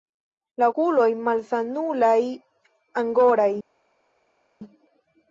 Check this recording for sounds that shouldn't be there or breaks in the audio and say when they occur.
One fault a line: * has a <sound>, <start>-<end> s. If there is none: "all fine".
all fine